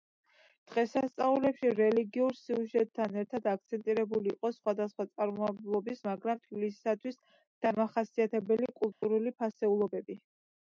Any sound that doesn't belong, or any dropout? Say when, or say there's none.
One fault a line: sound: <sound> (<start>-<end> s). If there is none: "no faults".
sound: dropout (8.9-9.0 s)